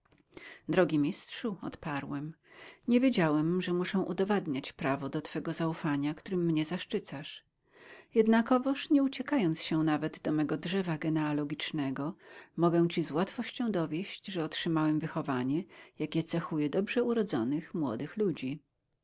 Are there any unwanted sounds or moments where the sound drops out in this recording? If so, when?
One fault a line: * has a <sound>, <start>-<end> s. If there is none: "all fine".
all fine